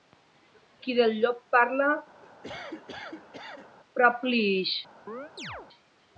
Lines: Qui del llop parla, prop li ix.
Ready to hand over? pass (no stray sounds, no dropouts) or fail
fail